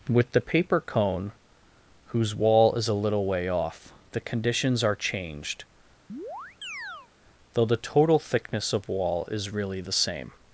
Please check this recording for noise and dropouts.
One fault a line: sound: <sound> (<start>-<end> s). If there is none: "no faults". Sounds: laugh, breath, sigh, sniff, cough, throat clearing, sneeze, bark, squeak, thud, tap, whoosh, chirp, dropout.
sound: chirp (6.1-7.1 s)